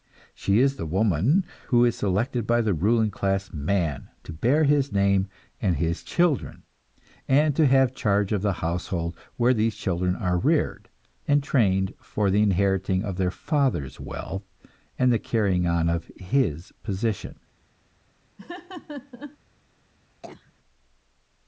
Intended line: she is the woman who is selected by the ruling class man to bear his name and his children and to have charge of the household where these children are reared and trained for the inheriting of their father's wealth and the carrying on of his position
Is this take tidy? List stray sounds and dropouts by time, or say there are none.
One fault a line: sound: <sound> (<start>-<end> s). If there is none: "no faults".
sound: laugh (18.4-19.4 s)
sound: cough (20.2-20.5 s)